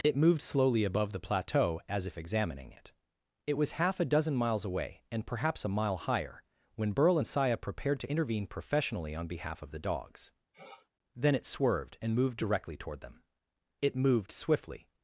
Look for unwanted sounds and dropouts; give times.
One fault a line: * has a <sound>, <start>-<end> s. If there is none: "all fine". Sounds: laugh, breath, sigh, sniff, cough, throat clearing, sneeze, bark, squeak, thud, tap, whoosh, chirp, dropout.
* has a sniff, 10.5-10.9 s